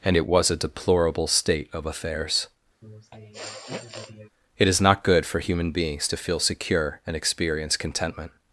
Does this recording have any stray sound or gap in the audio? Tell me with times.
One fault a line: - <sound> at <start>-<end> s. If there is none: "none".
- sniff at 2.8-4.3 s